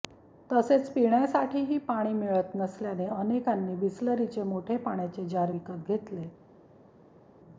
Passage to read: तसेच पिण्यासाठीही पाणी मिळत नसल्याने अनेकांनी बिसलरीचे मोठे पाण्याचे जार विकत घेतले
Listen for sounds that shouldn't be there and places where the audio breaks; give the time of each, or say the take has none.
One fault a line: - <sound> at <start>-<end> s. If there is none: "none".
none